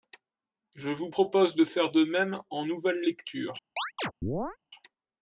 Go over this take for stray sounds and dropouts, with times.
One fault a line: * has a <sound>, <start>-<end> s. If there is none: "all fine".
* has a chirp, 3.8-4.6 s